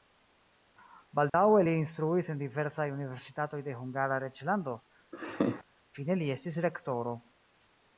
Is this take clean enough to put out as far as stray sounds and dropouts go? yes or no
no